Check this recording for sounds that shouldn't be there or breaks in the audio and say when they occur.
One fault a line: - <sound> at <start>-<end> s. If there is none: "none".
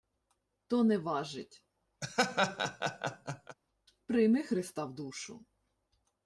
- laugh at 2.0-3.6 s